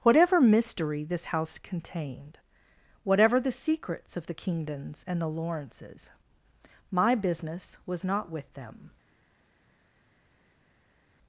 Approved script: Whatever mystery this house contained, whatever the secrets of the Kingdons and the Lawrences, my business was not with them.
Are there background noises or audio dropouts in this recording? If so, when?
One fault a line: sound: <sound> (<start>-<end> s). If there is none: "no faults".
no faults